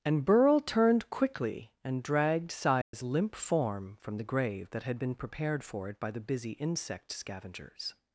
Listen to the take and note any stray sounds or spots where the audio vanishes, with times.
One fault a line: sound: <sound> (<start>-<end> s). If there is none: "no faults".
sound: dropout (2.8-2.9 s)